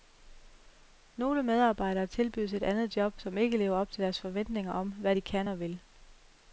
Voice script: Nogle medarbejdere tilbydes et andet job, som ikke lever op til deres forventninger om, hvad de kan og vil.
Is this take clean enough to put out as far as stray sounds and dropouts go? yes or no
yes